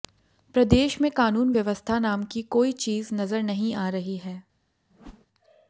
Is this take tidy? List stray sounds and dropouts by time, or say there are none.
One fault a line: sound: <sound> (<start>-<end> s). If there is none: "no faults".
sound: whoosh (4.9-5.3 s)